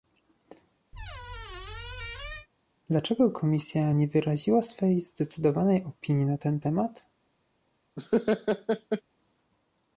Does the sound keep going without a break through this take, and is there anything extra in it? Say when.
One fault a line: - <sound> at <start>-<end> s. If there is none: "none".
- squeak at 0.9-2.5 s
- laugh at 8.0-9.0 s